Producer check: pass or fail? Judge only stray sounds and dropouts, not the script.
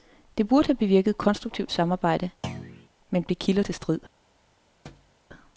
fail